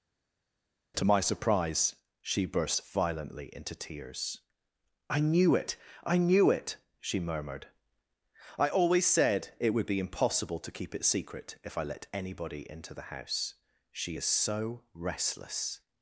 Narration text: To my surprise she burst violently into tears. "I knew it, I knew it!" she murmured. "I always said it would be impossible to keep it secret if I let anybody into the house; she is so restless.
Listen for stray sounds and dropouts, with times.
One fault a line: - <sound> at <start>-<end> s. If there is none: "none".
none